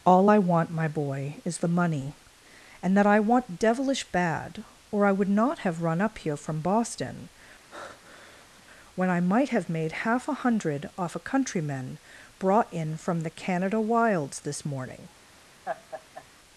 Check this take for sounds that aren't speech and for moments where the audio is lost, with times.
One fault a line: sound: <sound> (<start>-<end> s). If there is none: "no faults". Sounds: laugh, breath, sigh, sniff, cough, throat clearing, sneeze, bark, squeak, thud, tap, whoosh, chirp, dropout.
sound: breath (7.7-8.6 s)
sound: laugh (15.6-16.2 s)